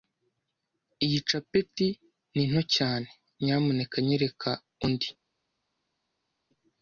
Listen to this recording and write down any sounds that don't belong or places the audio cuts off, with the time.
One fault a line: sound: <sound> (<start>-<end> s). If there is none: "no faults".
no faults